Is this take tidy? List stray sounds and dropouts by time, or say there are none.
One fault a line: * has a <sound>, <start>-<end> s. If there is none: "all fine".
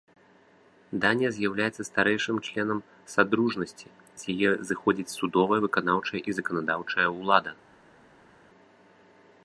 all fine